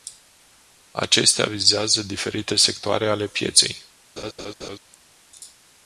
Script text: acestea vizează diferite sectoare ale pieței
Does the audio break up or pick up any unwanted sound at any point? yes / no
yes